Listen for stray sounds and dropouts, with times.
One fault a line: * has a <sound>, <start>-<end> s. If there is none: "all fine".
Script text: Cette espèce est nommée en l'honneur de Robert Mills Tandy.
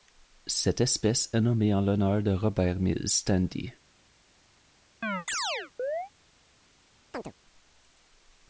* has a chirp, 5.0-6.1 s
* has a chirp, 7.1-7.3 s